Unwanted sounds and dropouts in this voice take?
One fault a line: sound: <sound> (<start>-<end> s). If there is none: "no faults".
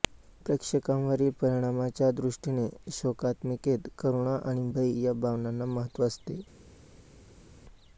no faults